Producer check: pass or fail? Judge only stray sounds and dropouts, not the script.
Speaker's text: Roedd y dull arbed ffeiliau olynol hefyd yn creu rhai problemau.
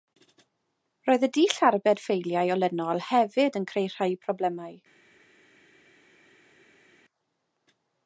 pass